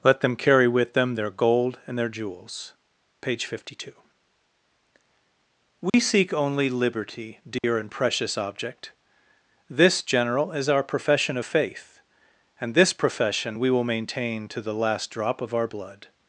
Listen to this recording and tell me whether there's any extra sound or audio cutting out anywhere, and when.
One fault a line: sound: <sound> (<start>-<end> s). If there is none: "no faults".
sound: dropout (5.9-5.9 s)
sound: dropout (7.6-7.6 s)